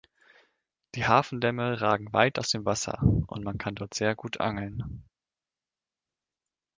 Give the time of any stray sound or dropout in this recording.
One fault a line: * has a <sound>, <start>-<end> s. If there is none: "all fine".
all fine